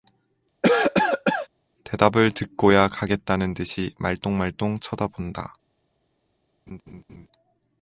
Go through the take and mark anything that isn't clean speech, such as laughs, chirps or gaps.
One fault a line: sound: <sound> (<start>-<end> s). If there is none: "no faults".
sound: cough (0.6-1.5 s)
sound: laugh (6.7-7.3 s)